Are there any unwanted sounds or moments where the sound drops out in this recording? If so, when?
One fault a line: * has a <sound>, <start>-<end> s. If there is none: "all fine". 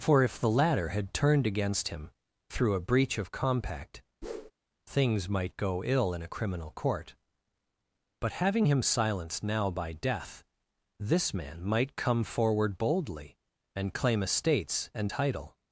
* has a whoosh, 4.2-4.5 s